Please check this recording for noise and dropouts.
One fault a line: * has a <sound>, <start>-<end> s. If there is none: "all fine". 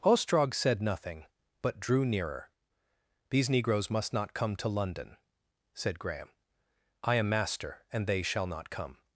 all fine